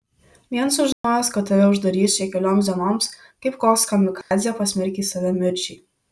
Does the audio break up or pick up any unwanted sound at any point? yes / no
yes